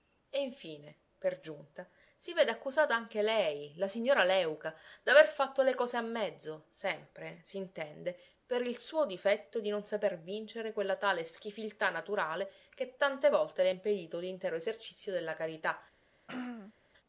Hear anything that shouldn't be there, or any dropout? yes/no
yes